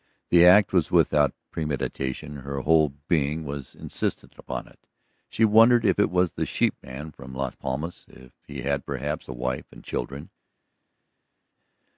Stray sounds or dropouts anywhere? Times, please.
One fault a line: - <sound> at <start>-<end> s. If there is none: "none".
none